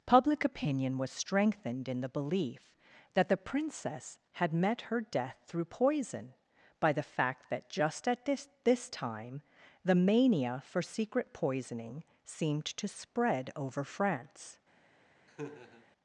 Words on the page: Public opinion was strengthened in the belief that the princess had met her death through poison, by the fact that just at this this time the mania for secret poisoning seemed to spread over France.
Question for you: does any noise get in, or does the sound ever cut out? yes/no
yes